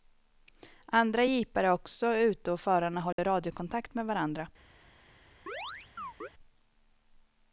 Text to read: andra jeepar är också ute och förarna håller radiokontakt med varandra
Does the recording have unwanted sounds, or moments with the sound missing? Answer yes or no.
yes